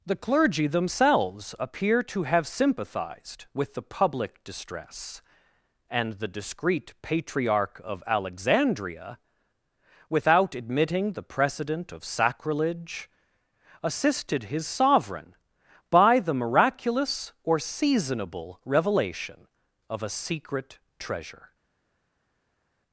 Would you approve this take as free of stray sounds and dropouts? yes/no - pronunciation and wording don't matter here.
yes